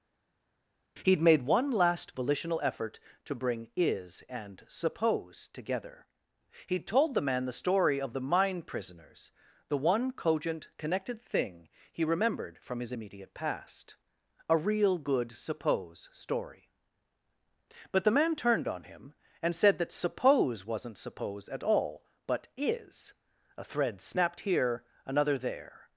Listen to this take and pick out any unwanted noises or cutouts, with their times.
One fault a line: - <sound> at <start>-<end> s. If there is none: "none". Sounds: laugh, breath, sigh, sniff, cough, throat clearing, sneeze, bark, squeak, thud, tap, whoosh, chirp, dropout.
none